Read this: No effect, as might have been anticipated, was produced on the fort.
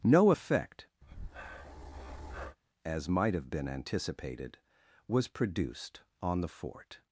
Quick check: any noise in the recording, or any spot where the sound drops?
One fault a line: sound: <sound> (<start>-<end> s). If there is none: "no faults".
sound: breath (1.0-2.6 s)